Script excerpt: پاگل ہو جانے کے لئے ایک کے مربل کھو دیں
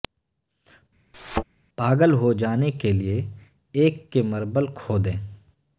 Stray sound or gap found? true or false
true